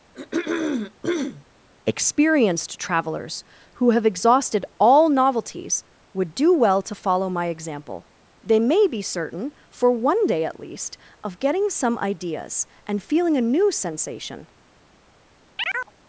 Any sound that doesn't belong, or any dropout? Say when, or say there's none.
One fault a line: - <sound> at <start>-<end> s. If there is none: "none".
- throat clearing at 0.1-1.4 s
- chirp at 15.6-15.9 s